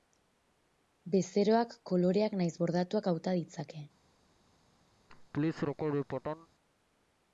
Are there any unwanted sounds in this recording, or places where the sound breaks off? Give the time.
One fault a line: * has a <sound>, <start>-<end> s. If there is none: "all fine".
* has a laugh, 5.1-6.5 s